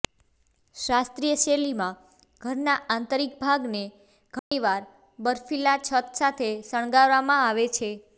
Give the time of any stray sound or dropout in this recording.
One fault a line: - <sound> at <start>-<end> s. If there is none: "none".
- dropout at 4.4-4.5 s